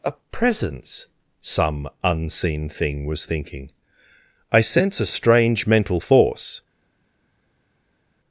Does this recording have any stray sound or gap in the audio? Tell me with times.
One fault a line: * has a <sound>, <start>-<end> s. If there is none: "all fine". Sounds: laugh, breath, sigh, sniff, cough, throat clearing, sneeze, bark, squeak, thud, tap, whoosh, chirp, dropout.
all fine